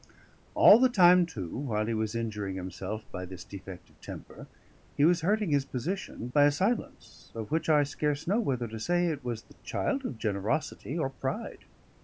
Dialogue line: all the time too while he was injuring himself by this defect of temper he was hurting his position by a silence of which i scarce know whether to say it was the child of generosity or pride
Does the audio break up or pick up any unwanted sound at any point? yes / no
no